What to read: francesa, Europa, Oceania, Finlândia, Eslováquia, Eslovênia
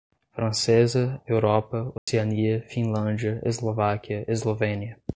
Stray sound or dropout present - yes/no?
yes